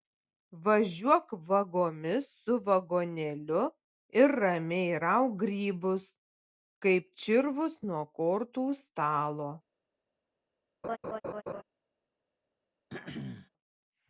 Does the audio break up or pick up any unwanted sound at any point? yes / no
yes